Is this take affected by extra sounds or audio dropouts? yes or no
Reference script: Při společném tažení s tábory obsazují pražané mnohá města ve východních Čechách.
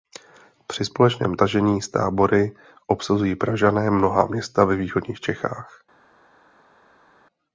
no